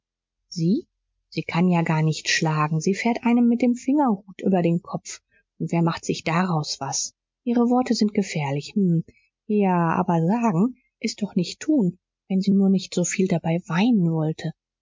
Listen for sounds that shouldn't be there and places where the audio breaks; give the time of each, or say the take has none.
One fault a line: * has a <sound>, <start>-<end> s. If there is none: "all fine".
all fine